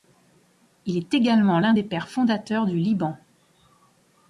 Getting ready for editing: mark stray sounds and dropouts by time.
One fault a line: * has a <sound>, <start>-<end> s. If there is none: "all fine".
all fine